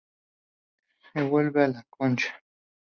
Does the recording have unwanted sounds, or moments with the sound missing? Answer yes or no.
no